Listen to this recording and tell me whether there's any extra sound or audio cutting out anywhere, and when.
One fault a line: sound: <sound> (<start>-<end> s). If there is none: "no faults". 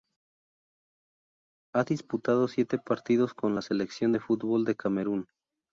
no faults